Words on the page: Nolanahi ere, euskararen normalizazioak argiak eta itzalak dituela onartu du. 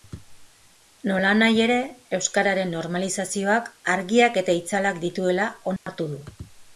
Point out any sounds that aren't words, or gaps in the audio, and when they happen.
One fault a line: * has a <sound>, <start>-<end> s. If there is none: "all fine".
* has a dropout, 5.8-5.9 s